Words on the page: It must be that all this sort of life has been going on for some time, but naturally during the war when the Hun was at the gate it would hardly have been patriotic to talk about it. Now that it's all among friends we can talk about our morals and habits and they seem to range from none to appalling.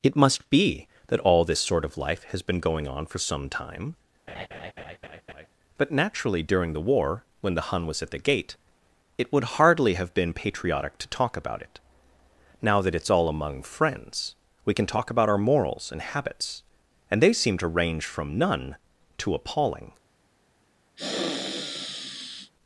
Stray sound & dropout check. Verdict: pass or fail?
fail